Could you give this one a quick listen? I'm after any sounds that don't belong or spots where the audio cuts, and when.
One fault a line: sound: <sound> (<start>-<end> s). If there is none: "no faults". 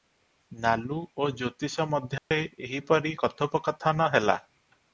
sound: dropout (2.2-2.3 s)